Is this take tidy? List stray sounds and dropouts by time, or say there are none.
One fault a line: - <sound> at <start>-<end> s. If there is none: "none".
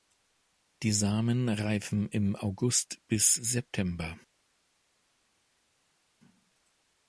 none